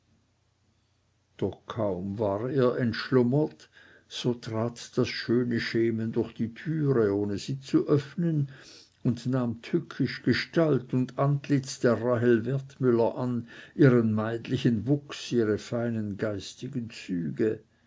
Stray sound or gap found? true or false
false